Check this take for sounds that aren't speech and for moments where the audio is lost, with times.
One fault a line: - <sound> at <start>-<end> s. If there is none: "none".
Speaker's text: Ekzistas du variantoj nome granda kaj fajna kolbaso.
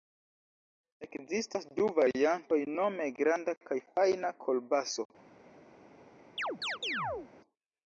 - chirp at 6.4-7.3 s